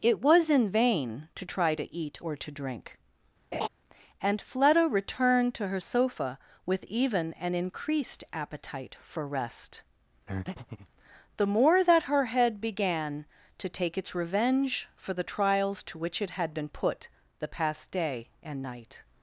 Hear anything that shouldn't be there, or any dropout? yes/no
yes